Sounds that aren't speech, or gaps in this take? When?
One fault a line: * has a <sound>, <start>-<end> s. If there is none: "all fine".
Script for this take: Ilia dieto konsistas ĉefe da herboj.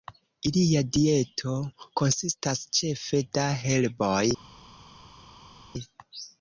all fine